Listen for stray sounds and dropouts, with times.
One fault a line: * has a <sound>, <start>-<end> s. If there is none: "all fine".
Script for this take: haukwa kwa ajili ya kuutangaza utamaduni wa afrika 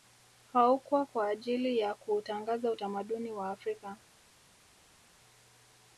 all fine